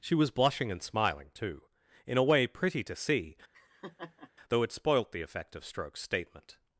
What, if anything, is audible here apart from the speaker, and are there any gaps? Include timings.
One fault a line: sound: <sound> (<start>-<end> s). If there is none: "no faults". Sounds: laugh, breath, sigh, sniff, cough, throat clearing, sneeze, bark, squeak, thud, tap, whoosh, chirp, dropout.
sound: laugh (3.5-4.3 s)